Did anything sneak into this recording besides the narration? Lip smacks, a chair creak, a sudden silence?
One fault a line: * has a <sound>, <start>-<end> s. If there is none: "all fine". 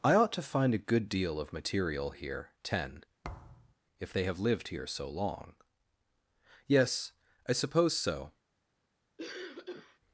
* has a thud, 3.2-3.7 s
* has a cough, 9.2-10.0 s